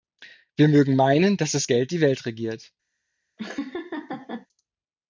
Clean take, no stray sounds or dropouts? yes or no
no